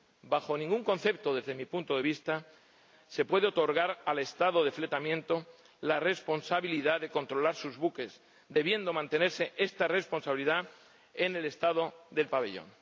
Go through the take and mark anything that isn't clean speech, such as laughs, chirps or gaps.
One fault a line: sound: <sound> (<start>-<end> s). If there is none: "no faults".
no faults